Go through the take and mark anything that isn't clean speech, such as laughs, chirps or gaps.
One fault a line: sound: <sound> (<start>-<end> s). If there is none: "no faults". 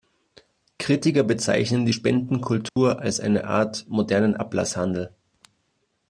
sound: dropout (2.7-2.8 s)